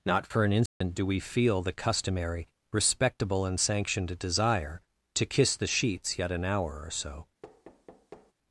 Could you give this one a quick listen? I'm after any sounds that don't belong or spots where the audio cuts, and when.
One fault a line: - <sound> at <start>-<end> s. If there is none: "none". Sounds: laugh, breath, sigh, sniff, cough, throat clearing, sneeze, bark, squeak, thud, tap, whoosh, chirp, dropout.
- dropout at 0.7-0.8 s
- thud at 7.4-8.3 s